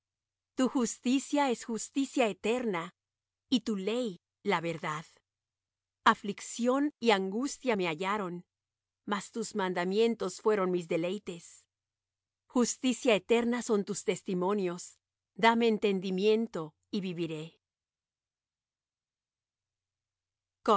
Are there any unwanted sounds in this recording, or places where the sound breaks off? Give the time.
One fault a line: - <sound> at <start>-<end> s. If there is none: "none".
none